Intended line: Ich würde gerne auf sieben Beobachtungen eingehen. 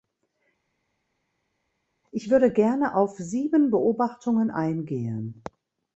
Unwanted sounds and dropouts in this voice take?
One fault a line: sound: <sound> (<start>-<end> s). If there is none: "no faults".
no faults